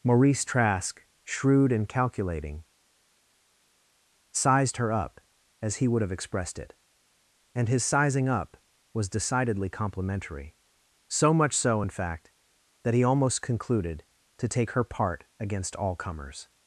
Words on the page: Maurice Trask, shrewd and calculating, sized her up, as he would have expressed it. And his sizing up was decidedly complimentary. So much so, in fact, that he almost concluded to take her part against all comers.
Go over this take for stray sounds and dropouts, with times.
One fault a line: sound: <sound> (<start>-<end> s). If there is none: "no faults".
no faults